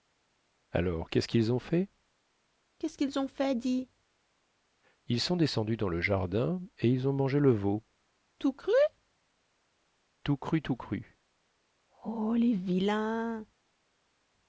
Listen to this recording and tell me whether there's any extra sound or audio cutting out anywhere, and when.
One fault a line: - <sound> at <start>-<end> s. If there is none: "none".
none